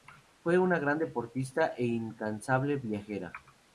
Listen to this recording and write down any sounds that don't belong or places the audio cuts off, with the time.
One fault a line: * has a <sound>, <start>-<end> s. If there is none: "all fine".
all fine